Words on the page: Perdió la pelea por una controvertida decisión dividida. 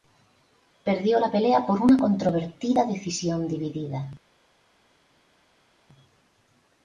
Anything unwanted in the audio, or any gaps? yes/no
no